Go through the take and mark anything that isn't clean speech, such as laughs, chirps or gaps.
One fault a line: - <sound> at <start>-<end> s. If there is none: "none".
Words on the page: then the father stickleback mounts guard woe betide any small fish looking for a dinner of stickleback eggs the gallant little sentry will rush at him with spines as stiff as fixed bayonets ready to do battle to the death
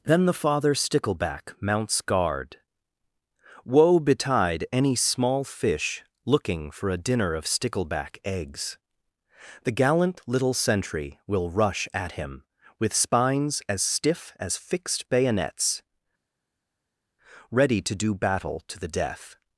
none